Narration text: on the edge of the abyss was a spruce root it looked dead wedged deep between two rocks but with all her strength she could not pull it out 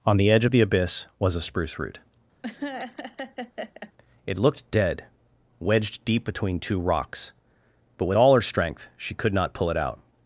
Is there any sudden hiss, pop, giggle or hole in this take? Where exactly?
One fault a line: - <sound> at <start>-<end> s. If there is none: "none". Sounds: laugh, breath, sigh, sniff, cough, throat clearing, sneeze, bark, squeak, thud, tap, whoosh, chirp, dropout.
- laugh at 2.4-3.9 s